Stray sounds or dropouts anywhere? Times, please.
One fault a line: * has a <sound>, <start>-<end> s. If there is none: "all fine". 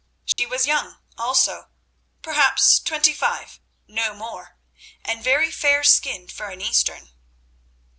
* has a dropout, 0.3-0.4 s